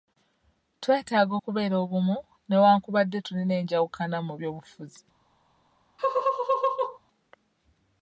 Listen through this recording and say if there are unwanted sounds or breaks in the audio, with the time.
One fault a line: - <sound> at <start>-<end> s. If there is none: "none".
- laugh at 6.0-7.0 s